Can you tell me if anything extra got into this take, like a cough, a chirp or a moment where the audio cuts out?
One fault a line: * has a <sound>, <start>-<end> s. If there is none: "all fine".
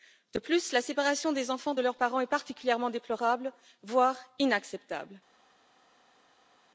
all fine